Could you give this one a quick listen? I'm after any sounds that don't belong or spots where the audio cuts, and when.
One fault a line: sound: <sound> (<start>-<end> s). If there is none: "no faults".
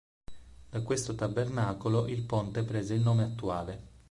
no faults